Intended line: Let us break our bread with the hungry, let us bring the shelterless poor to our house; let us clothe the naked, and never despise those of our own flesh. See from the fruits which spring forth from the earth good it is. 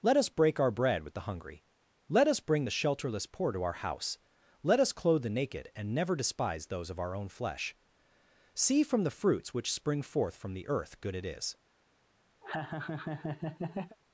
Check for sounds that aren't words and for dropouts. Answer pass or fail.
fail